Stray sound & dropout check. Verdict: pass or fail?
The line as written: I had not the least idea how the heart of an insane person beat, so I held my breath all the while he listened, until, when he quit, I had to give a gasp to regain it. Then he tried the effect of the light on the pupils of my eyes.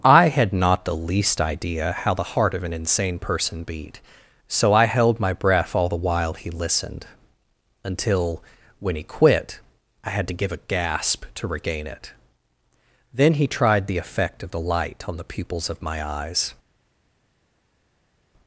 pass